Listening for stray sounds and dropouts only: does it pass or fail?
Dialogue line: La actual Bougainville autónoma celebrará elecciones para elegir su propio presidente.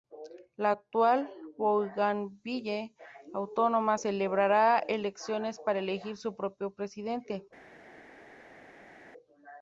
pass